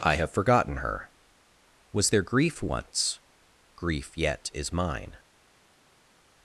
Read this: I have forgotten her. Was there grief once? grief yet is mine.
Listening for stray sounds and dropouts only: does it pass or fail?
pass